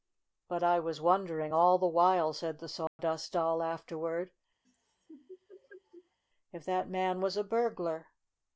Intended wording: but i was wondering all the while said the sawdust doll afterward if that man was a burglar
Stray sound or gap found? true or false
true